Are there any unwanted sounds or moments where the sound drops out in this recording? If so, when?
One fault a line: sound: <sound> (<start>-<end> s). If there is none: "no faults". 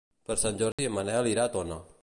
sound: dropout (0.7-0.8 s)